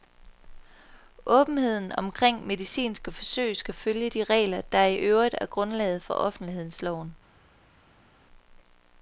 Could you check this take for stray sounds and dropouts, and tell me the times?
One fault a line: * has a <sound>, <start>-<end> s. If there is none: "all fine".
all fine